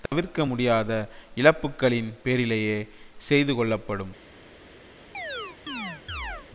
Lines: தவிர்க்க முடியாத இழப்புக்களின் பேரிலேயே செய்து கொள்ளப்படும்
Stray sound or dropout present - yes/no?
yes